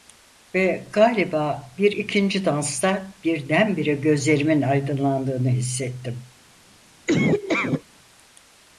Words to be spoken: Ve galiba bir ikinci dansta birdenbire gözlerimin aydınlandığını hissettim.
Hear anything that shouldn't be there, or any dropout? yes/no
yes